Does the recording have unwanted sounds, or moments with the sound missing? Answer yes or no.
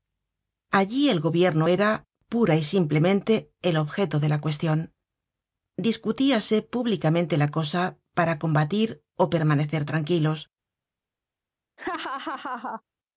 yes